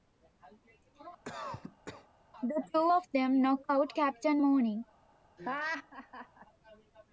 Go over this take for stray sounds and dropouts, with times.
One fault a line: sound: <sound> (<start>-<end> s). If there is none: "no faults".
sound: cough (1.2-2.1 s)
sound: laugh (5.4-6.5 s)